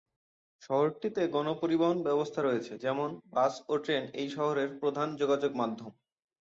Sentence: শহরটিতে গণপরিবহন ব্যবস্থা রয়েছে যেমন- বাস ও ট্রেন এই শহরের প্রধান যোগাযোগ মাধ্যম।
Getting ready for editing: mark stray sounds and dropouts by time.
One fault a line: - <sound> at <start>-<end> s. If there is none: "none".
none